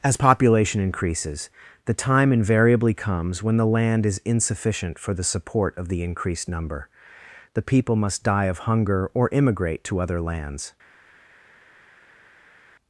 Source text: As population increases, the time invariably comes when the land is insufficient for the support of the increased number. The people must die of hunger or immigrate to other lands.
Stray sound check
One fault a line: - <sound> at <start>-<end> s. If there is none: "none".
none